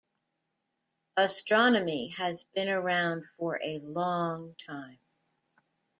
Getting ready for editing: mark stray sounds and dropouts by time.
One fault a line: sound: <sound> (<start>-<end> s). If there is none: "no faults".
no faults